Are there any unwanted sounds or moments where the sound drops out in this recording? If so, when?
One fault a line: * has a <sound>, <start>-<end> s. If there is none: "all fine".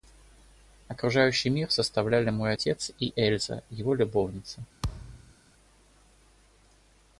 * has a thud, 4.8-5.3 s